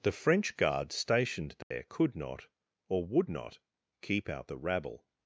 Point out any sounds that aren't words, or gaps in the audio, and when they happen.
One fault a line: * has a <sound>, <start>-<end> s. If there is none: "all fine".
* has a dropout, 1.6-1.7 s